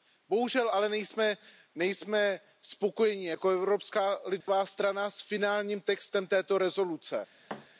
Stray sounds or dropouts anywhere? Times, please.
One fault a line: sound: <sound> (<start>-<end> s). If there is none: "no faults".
sound: dropout (4.4-4.5 s)
sound: thud (7.5-7.7 s)